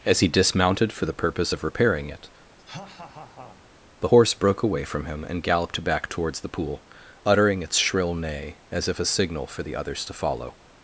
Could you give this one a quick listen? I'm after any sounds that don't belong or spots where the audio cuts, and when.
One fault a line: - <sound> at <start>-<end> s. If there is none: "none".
- laugh at 2.6-3.6 s